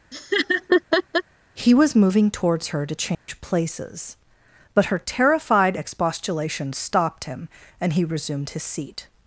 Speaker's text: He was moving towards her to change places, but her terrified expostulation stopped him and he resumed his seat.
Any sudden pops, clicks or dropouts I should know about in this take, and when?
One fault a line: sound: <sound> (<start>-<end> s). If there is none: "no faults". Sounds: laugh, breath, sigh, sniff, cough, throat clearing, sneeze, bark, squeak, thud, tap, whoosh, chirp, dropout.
sound: laugh (0.1-1.2 s)
sound: dropout (3.1-3.3 s)